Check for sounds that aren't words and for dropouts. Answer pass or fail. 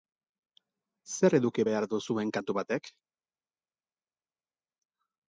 pass